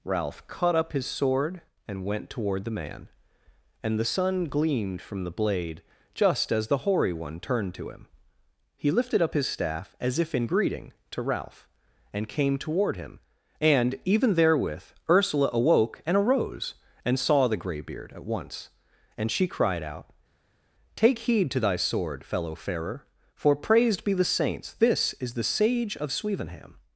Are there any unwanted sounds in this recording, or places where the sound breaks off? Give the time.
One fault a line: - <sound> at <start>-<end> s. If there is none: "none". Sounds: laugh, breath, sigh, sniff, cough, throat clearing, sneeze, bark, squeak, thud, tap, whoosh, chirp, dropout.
none